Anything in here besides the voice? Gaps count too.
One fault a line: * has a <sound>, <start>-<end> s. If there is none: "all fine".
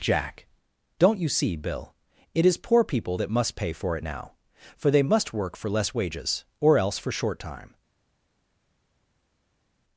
all fine